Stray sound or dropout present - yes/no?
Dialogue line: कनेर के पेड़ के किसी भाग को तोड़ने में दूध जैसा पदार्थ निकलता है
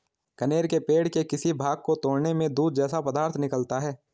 no